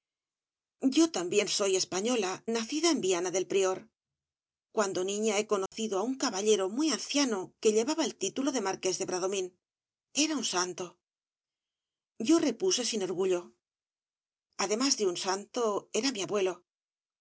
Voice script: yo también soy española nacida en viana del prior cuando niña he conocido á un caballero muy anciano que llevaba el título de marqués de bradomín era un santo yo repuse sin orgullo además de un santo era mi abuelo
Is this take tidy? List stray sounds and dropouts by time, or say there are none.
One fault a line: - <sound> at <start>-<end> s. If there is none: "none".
- dropout at 5.7-5.7 s